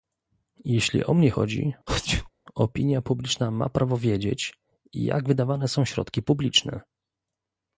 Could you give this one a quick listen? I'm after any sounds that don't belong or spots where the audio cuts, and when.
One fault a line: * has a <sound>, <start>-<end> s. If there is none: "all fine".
* has a sneeze, 1.9-2.3 s